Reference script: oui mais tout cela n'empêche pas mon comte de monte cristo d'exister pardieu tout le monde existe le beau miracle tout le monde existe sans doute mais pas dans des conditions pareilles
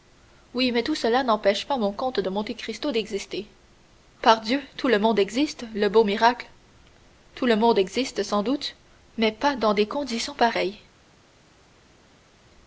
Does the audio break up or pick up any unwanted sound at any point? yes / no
no